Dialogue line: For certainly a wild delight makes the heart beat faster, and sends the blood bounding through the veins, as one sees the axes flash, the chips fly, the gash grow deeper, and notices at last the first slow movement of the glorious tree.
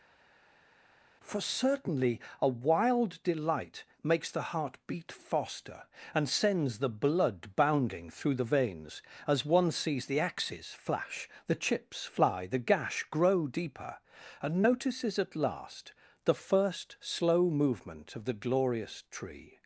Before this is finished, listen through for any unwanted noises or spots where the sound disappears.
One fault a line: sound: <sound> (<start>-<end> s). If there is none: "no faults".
no faults